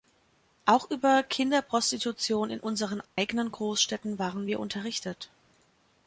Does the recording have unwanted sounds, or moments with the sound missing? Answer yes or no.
yes